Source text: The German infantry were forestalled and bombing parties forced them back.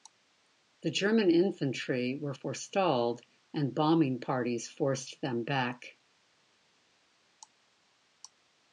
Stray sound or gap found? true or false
false